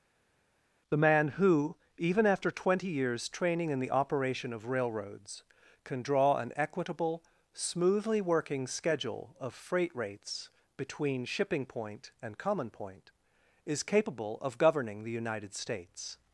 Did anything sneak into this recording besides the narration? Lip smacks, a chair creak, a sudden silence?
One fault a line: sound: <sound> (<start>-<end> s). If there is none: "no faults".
no faults